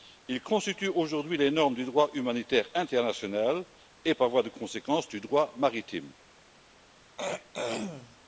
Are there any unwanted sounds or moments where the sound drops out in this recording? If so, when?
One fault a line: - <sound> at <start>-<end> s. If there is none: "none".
- throat clearing at 7.2-8.2 s